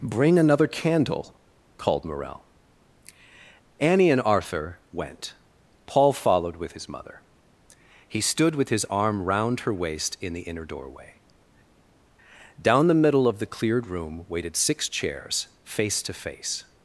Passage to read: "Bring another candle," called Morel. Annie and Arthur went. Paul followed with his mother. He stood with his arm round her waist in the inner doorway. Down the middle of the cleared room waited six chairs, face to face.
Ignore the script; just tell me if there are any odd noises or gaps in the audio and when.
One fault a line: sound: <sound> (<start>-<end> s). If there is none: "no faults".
no faults